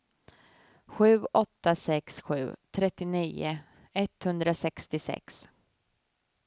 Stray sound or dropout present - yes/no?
no